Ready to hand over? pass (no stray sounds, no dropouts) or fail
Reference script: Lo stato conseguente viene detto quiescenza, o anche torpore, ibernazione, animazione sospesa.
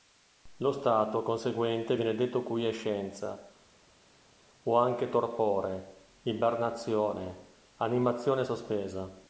pass